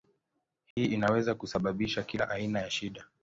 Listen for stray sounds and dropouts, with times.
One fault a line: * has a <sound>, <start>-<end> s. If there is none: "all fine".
* has a dropout, 0.7-0.8 s